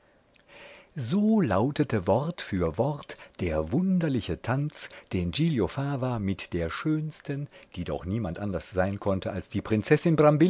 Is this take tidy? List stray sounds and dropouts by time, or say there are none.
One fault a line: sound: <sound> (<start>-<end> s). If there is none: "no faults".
no faults